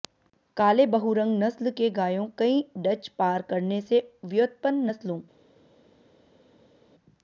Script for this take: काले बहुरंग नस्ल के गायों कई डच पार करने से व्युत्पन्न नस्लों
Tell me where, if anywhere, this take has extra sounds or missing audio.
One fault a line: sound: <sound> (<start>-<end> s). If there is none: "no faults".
no faults